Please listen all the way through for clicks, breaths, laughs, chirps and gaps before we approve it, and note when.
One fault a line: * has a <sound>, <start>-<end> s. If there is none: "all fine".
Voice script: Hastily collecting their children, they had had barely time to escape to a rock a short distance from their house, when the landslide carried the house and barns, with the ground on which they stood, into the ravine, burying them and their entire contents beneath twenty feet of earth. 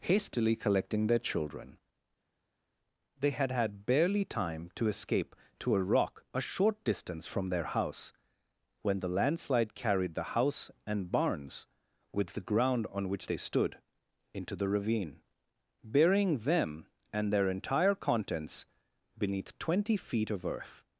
all fine